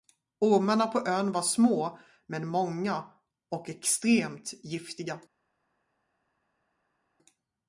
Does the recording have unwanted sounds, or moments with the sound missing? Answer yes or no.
no